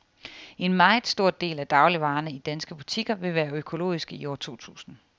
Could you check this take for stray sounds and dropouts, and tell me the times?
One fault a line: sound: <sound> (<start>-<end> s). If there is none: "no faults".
no faults